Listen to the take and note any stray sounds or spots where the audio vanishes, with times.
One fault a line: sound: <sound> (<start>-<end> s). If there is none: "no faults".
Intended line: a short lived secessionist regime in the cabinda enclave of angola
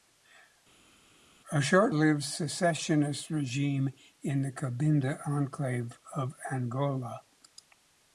no faults